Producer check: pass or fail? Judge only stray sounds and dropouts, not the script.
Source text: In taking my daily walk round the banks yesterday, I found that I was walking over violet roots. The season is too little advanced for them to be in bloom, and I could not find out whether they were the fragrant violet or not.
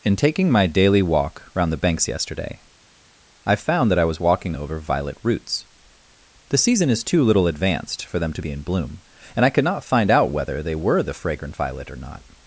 pass